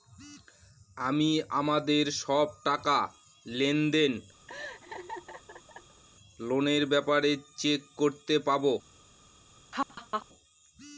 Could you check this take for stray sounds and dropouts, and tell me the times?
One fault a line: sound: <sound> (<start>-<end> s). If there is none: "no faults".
sound: laugh (4.5-6.0 s)
sound: laugh (9.7-10.3 s)